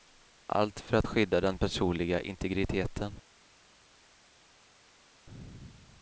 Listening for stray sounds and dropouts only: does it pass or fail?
pass